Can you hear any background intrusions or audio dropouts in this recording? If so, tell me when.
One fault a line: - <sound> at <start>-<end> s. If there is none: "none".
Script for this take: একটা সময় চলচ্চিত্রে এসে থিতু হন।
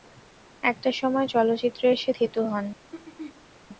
- throat clearing at 2.9-3.5 s